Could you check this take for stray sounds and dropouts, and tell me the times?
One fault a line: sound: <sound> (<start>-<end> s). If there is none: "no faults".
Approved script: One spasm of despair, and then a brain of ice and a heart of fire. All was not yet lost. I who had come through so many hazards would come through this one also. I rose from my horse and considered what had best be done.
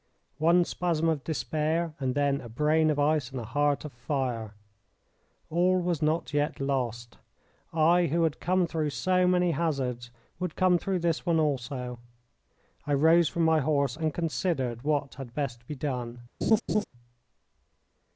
sound: laugh (16.4-16.8 s)